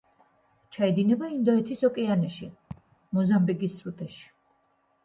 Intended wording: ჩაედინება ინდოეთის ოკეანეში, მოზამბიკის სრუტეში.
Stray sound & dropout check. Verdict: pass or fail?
fail